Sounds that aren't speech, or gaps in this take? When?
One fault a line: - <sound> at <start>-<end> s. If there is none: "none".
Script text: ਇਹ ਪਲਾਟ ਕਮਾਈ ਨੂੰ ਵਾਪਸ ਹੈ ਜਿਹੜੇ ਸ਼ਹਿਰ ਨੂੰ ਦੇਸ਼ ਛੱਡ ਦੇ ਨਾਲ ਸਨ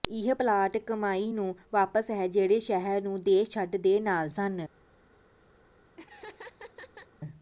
- laugh at 6.0-7.1 s